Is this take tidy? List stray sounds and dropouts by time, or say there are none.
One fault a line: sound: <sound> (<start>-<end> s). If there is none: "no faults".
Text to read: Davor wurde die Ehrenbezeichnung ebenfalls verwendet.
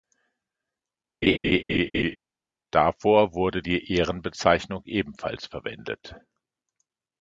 sound: laugh (1.2-2.2 s)